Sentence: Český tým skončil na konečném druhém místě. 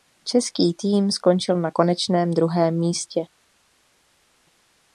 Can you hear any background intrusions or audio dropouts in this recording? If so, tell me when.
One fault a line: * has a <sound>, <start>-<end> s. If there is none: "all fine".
all fine